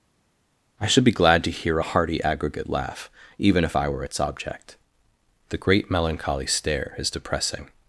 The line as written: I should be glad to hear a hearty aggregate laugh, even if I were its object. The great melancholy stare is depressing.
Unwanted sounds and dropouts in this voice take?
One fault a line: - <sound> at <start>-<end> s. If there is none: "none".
none